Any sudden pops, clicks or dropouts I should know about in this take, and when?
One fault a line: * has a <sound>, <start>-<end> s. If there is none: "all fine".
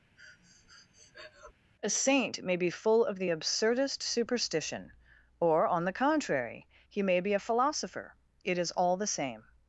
* has a breath, 0.2-1.5 s